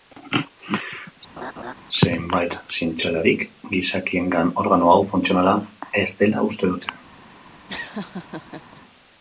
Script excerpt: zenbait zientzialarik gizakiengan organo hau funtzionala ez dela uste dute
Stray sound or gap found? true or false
true